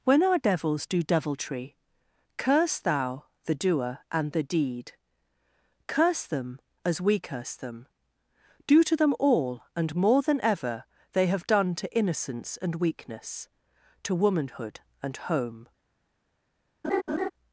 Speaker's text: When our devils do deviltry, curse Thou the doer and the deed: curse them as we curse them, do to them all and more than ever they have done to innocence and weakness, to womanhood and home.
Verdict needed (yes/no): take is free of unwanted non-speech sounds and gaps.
no